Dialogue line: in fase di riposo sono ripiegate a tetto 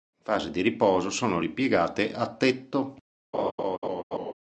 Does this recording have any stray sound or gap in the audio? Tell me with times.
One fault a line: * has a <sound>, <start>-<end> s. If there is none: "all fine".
* has a laugh, 3.3-4.3 s